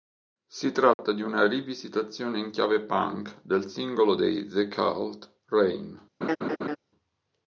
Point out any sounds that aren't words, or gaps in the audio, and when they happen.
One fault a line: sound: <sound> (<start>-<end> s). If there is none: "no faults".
sound: dropout (0.9-1.0 s)
sound: laugh (6.2-6.8 s)